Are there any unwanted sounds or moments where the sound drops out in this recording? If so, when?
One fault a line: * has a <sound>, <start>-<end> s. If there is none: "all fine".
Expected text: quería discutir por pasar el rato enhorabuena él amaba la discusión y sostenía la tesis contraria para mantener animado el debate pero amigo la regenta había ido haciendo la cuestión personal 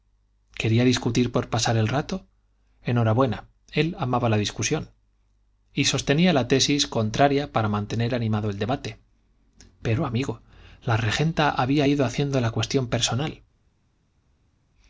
all fine